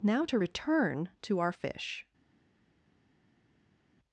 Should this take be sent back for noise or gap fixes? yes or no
no